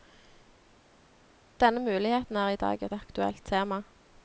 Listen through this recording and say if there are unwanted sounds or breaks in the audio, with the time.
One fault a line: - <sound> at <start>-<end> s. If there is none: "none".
none